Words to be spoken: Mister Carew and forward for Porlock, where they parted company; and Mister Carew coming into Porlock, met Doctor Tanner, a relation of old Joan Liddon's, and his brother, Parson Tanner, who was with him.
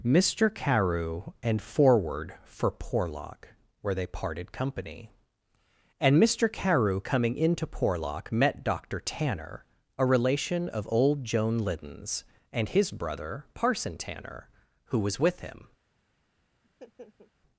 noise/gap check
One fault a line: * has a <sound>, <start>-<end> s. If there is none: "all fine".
* has a laugh, 16.6-17.3 s